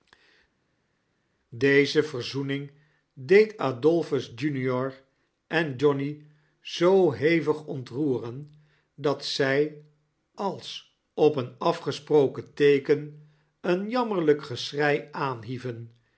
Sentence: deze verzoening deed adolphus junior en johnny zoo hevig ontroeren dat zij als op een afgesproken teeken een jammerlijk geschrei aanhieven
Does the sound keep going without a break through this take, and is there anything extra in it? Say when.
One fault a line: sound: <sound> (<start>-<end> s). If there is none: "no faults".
no faults